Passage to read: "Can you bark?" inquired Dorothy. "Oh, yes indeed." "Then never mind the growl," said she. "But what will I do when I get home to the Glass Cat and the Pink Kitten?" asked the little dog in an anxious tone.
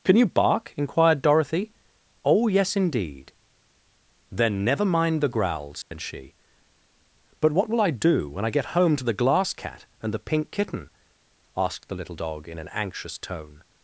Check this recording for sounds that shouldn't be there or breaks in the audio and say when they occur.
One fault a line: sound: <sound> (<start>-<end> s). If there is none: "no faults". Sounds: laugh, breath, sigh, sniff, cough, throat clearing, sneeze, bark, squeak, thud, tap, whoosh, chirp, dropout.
sound: dropout (5.8-5.9 s)